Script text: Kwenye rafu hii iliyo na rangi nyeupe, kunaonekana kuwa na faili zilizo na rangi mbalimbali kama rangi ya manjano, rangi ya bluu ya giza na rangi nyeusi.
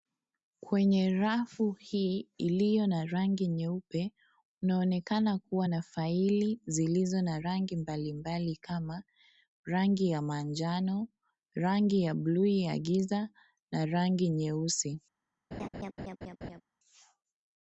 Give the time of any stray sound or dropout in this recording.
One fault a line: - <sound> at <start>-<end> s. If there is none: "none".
- laugh at 15.5-16.6 s